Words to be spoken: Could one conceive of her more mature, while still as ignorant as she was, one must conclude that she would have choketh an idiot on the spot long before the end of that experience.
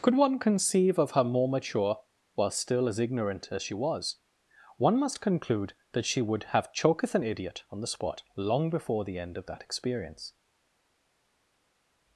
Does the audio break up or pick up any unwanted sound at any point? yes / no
no